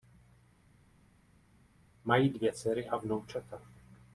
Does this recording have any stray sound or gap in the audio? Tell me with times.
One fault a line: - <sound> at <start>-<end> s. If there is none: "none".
none